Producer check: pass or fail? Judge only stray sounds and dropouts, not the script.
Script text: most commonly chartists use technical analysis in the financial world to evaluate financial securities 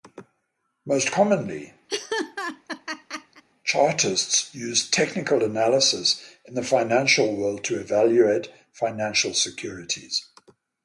fail